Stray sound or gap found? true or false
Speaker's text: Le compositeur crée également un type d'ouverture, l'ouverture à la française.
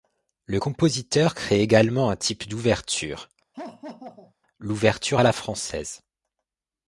true